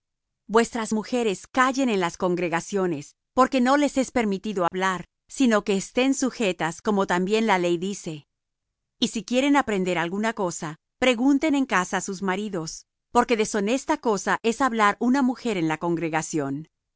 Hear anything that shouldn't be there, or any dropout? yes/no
yes